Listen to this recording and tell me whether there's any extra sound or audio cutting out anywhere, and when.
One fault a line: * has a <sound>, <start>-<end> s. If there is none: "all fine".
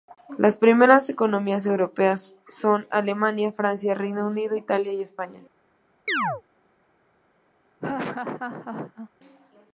* has a chirp, 6.1-6.4 s
* has a laugh, 7.8-9.1 s